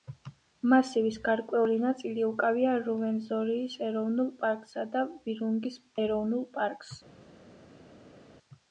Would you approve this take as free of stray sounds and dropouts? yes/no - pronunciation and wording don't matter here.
yes